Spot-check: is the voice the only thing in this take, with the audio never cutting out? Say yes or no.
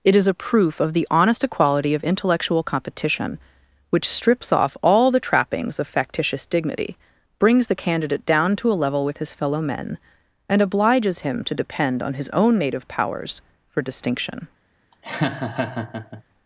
no